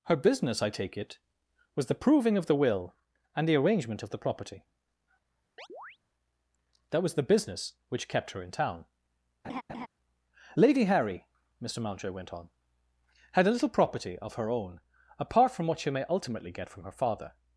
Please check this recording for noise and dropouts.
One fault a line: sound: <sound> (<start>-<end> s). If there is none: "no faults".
sound: chirp (5.6-6.0 s)
sound: laugh (9.4-9.9 s)